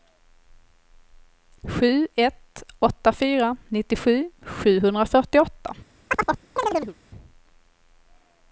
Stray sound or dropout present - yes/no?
yes